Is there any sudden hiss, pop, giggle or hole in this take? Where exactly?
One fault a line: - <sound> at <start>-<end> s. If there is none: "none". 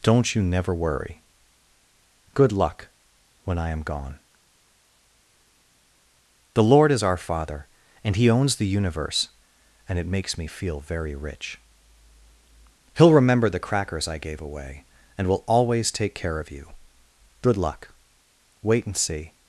none